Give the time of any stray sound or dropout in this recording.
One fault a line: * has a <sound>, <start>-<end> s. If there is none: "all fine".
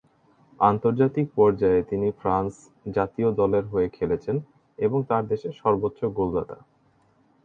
all fine